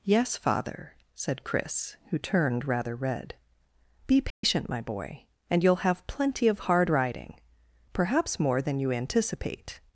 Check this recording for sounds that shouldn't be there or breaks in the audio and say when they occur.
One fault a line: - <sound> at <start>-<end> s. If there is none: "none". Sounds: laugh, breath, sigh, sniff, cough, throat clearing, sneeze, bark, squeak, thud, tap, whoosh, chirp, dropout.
- dropout at 4.3-4.4 s